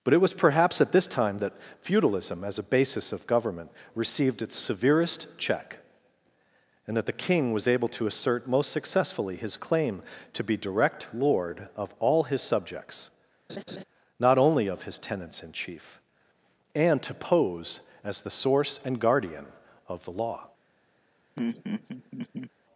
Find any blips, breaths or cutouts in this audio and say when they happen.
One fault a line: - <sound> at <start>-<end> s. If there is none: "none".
- laugh at 13.5-13.8 s
- laugh at 21.4-22.5 s